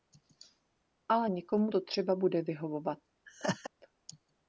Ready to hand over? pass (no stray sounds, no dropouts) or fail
fail